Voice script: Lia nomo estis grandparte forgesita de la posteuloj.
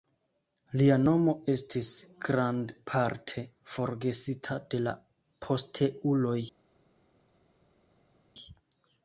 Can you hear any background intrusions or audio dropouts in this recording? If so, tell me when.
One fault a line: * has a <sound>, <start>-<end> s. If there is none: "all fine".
all fine